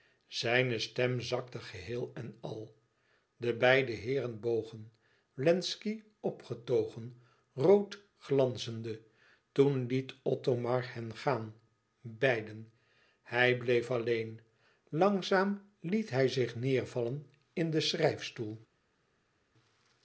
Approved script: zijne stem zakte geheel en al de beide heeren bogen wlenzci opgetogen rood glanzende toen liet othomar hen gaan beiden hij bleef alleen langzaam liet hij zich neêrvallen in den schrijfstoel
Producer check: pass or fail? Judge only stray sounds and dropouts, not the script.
pass